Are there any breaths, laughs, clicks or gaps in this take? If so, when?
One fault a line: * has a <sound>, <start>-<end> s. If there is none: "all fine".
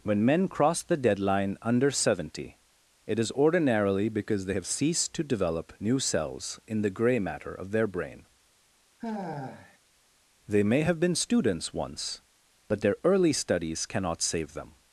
* has a sigh, 9.0-9.8 s